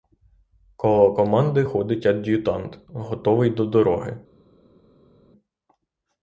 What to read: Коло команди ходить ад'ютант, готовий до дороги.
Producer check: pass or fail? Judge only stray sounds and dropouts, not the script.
pass